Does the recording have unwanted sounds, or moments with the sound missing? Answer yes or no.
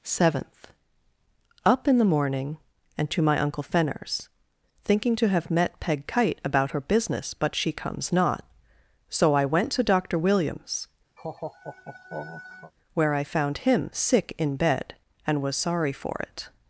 yes